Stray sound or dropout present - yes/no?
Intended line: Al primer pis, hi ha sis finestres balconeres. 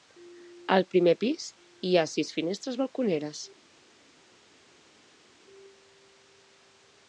no